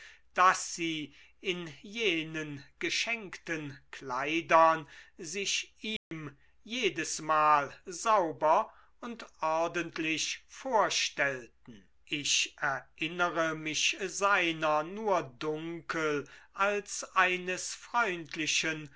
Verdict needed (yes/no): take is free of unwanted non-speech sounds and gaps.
no